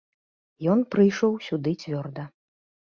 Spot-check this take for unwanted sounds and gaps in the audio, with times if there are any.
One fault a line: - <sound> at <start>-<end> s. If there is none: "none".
none